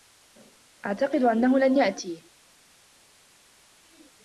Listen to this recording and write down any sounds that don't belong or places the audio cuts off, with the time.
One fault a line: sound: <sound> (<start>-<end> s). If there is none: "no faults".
no faults